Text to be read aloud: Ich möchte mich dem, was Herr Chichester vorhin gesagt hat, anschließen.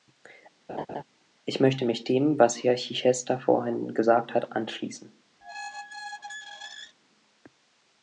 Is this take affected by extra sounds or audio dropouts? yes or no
yes